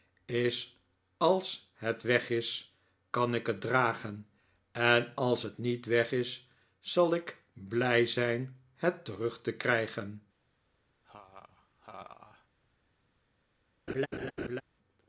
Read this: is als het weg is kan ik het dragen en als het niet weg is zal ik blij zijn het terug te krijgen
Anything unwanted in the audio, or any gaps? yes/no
yes